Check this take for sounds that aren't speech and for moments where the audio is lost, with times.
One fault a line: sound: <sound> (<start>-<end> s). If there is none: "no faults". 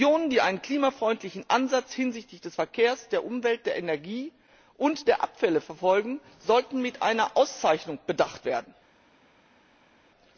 no faults